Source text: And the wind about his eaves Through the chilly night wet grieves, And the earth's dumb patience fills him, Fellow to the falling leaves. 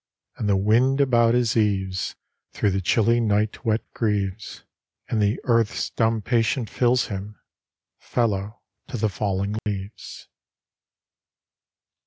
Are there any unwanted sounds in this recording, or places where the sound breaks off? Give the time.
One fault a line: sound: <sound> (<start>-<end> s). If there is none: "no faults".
sound: dropout (9.6-9.7 s)